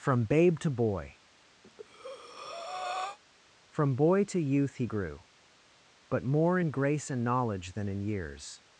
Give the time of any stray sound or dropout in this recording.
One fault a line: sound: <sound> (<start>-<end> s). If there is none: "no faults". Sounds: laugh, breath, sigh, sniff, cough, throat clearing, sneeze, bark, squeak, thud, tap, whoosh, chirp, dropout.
sound: breath (1.6-3.2 s)